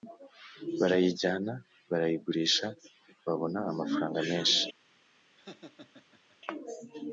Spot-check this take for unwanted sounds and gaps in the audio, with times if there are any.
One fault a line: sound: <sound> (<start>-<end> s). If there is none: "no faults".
sound: laugh (5.4-6.4 s)